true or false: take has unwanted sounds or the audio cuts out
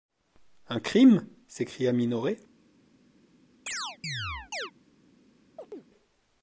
true